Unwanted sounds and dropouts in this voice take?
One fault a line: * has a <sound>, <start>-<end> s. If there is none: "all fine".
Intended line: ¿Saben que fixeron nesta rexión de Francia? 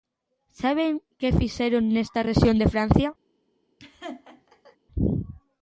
* has a laugh, 3.8-4.8 s